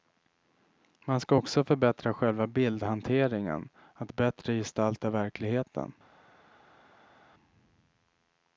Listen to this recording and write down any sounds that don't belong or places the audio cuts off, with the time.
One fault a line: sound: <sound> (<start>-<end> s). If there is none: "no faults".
no faults